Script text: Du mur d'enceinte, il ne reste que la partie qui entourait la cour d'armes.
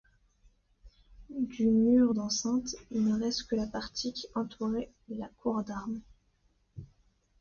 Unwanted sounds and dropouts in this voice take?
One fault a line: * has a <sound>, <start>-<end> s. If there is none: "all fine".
all fine